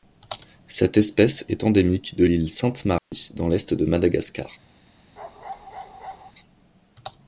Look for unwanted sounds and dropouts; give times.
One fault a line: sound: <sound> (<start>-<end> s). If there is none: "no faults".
sound: dropout (3.0-3.1 s)
sound: bark (5.2-6.3 s)